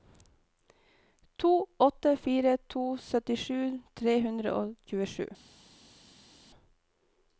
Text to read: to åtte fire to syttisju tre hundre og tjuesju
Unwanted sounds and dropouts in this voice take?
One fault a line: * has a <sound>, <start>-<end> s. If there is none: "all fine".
all fine